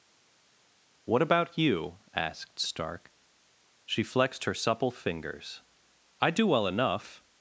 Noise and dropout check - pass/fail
pass